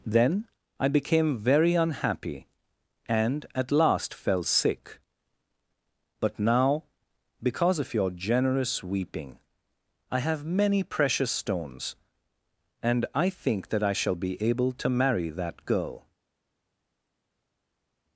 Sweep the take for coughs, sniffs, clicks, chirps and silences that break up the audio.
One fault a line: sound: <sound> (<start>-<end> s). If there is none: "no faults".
no faults